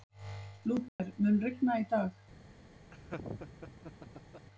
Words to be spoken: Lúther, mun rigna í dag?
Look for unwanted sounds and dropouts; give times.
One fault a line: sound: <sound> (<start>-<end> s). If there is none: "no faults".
sound: dropout (0.9-1.0 s)
sound: laugh (2.9-4.5 s)